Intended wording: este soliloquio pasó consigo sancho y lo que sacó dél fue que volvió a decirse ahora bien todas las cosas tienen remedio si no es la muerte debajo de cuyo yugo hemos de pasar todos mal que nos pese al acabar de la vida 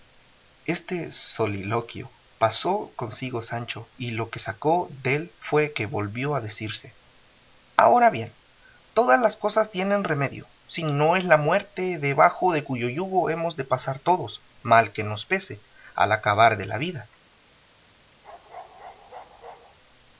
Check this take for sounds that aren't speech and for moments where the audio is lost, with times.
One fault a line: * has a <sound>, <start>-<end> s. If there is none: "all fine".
* has a bark, 18.2-19.8 s